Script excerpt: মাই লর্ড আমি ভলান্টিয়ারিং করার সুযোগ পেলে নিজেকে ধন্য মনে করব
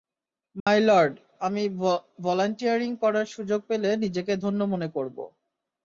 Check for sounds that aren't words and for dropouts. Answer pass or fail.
fail